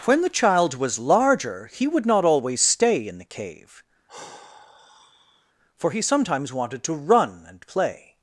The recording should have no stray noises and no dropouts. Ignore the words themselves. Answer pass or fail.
fail